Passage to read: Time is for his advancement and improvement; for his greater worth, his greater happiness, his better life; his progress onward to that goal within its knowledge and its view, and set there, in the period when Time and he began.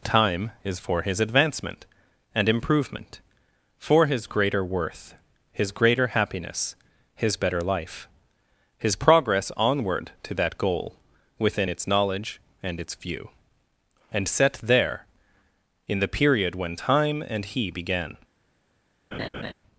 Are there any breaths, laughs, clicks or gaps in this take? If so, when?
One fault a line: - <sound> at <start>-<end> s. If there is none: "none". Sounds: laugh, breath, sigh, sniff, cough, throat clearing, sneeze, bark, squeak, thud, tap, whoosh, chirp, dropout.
- laugh at 19.1-19.5 s